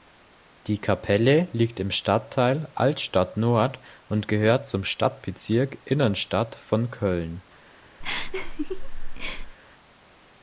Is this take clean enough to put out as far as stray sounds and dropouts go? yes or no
no